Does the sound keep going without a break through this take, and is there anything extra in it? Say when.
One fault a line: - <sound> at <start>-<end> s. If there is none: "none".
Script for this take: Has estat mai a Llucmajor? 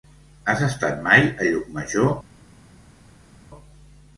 none